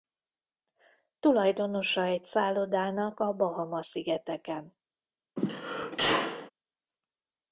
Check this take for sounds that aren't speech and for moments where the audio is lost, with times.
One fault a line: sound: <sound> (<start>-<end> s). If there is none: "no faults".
sound: sneeze (5.4-6.5 s)